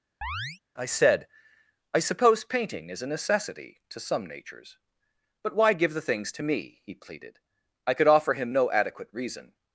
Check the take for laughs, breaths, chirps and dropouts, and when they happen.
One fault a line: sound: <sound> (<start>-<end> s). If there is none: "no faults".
sound: chirp (0.2-0.6 s)